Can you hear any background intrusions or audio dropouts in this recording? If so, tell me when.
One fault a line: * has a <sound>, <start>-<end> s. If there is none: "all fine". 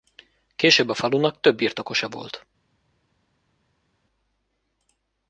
all fine